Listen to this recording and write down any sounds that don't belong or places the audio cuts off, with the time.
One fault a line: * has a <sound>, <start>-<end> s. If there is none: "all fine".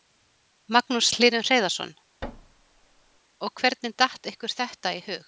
* has a thud, 2.2-3.2 s